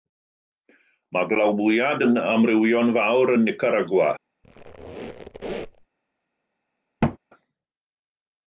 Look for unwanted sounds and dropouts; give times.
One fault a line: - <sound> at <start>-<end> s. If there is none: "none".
- squeak at 4.4-5.9 s
- thud at 7.0-7.2 s